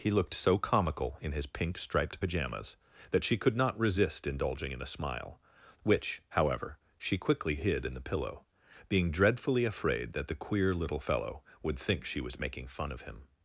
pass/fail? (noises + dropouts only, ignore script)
pass